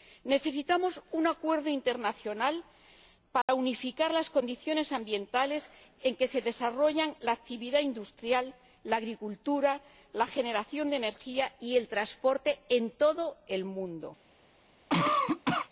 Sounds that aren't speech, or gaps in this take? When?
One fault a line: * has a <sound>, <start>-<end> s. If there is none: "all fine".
* has a dropout, 3.4-3.5 s
* has a cough, 14.9-15.7 s